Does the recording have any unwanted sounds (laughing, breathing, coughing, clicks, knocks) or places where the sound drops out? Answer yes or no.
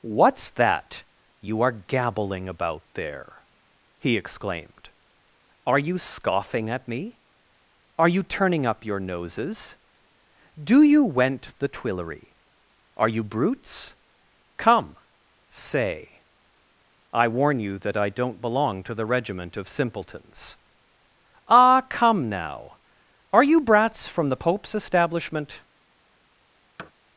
yes